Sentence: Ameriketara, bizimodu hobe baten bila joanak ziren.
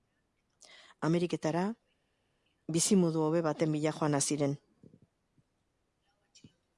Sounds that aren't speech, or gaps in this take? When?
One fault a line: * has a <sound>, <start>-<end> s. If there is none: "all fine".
all fine